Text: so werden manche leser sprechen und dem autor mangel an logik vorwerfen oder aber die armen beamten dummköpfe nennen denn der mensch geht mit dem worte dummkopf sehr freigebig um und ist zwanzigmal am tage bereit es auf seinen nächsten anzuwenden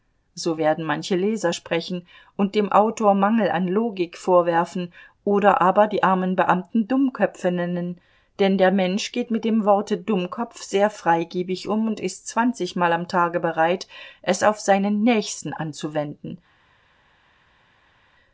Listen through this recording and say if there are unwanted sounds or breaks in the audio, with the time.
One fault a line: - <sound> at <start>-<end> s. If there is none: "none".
none